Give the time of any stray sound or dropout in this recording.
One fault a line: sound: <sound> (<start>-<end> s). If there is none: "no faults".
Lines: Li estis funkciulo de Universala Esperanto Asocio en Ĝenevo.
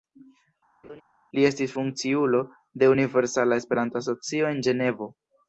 sound: laugh (0.8-1.0 s)